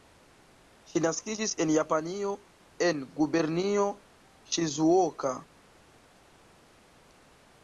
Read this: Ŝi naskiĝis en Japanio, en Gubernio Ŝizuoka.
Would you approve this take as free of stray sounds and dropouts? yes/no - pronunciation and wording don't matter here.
yes